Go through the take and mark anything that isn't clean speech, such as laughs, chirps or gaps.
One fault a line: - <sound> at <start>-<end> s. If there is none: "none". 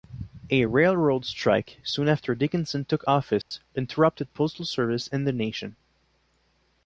- dropout at 3.4-3.5 s